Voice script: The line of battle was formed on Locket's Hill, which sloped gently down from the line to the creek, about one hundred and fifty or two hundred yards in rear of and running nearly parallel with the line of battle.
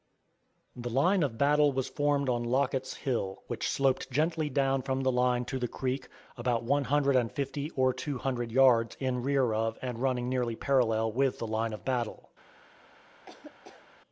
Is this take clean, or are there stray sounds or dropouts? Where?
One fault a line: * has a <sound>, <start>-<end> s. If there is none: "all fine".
* has a laugh, 13.3-13.9 s